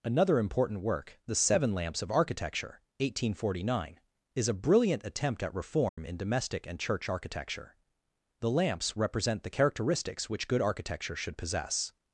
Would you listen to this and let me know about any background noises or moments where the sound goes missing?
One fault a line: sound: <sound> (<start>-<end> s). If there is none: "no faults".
sound: dropout (5.9-6.0 s)